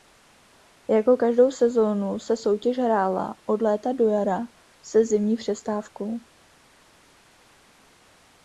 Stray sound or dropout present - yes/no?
no